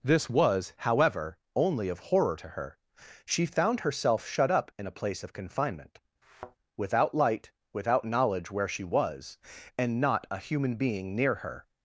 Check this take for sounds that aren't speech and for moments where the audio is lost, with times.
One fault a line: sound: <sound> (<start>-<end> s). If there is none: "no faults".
sound: thud (6.2-6.6 s)